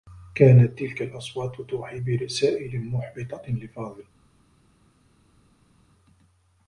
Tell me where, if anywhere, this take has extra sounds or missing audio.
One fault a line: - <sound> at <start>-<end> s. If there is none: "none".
none